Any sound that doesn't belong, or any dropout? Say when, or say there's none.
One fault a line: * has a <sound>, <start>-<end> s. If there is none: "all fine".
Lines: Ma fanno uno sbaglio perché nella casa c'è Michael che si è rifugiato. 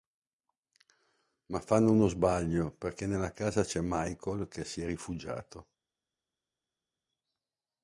all fine